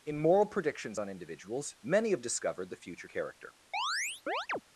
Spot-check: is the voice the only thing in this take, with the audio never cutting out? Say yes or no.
no